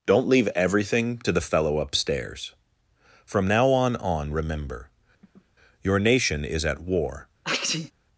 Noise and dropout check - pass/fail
fail